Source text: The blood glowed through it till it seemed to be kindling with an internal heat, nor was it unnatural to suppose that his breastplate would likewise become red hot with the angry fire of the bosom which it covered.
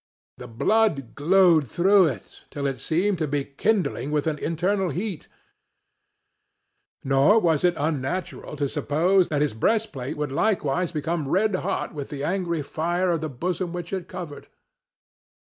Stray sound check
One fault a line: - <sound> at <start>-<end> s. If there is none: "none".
none